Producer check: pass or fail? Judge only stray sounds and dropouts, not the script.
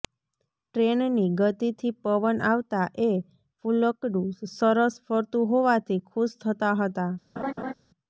fail